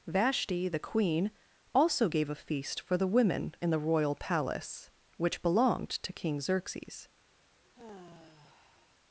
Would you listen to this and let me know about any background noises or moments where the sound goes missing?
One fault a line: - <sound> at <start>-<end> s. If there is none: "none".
- sigh at 7.6-9.0 s